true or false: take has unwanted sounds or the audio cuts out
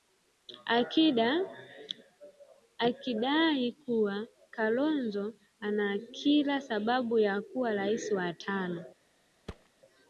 true